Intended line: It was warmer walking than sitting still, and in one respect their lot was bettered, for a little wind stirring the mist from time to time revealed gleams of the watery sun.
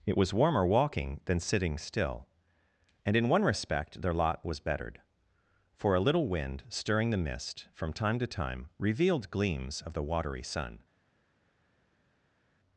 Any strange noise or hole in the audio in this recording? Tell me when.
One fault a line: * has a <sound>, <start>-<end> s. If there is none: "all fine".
all fine